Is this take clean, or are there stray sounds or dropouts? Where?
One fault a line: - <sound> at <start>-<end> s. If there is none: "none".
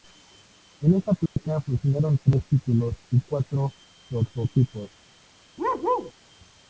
- dropout at 1.3-1.4 s
- bark at 5.6-6.1 s